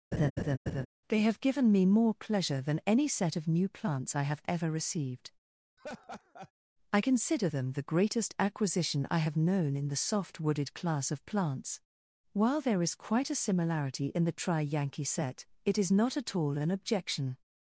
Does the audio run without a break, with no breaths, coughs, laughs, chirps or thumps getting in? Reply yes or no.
no